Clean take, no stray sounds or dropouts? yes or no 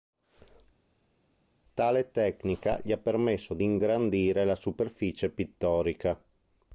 yes